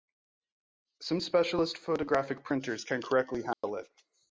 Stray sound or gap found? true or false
true